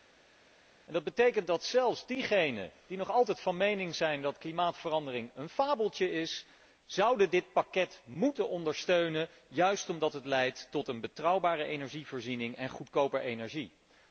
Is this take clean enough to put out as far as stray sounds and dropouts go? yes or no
yes